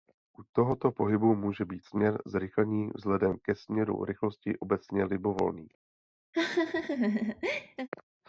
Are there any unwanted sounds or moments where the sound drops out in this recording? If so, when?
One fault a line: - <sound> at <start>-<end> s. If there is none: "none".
- laugh at 6.3-7.9 s